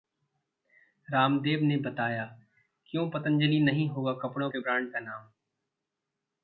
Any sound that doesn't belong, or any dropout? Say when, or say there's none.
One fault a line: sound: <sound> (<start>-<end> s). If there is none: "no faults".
no faults